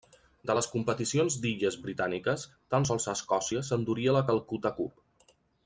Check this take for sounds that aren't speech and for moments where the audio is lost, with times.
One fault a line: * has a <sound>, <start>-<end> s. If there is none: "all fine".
all fine